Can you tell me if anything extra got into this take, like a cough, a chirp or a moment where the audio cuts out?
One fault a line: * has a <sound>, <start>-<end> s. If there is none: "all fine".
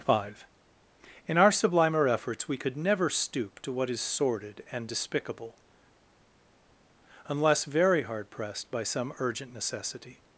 all fine